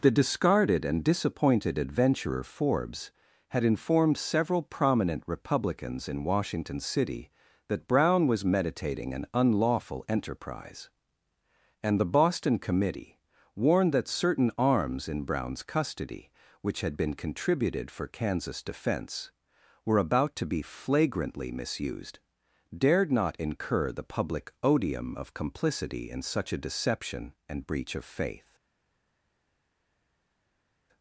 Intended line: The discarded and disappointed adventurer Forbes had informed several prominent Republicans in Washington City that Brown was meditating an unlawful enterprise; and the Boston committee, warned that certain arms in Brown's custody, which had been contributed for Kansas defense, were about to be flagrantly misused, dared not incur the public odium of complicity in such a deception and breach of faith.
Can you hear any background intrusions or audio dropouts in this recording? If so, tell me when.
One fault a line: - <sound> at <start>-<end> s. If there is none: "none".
none